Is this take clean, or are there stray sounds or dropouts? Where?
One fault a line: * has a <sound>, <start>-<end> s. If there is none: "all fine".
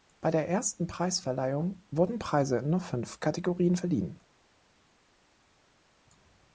all fine